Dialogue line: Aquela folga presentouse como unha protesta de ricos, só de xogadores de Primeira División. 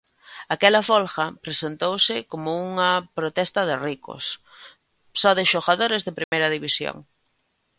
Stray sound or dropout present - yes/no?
yes